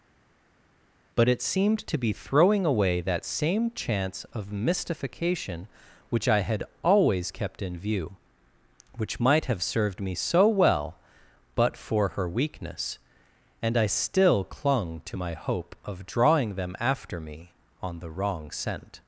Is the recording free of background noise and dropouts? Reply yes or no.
yes